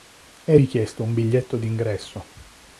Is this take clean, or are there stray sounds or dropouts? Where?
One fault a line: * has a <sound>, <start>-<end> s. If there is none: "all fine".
all fine